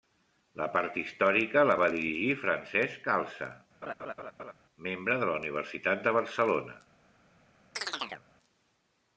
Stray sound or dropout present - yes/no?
yes